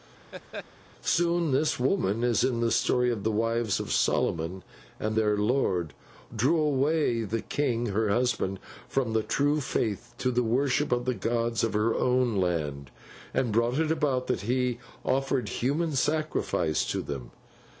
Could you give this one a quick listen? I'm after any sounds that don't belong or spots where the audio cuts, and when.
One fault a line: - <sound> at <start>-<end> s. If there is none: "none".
- laugh at 0.3-0.7 s